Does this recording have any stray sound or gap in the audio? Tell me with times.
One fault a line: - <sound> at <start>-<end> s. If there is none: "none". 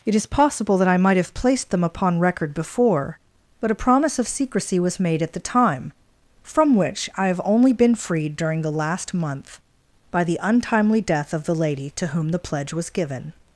none